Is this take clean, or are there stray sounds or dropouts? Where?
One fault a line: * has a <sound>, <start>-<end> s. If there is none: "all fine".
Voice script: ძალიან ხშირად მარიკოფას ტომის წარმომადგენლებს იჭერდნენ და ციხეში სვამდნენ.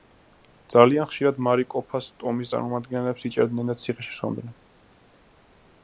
all fine